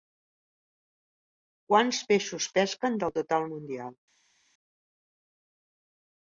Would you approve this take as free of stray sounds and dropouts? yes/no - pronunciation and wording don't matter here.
yes